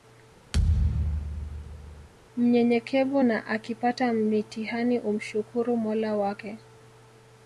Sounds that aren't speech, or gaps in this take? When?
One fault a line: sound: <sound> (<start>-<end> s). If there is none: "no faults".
sound: thud (0.5-2.1 s)